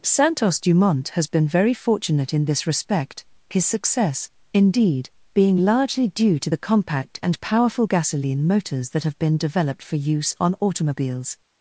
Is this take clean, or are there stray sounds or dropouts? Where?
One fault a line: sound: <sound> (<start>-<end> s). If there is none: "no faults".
no faults